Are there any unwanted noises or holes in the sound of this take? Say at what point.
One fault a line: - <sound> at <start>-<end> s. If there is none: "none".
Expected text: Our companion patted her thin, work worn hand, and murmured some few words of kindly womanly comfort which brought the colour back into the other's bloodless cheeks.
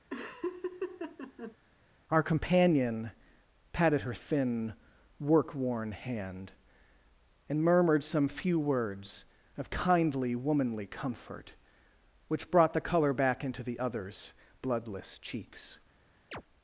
- laugh at 0.1-1.6 s
- chirp at 16.3-16.4 s